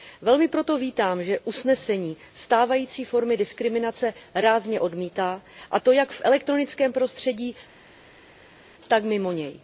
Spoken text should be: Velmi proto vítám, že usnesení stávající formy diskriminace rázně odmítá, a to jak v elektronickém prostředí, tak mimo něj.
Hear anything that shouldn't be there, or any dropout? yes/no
no